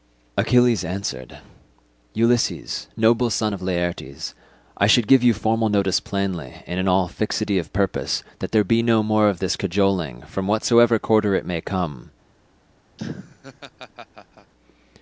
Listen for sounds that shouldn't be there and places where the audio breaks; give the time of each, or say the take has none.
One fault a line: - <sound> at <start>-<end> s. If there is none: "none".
- laugh at 13.0-14.5 s